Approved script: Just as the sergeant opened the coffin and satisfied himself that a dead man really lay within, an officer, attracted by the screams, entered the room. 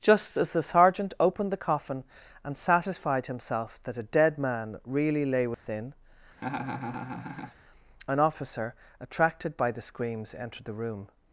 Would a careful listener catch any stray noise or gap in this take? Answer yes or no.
yes